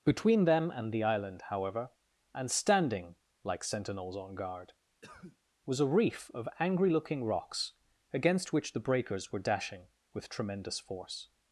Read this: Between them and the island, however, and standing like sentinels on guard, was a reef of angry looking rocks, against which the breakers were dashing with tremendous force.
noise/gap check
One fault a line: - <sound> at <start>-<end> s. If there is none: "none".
- cough at 5.0-5.4 s